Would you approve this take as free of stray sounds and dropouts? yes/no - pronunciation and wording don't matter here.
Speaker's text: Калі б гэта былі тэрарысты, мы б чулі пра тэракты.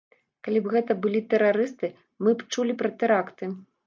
yes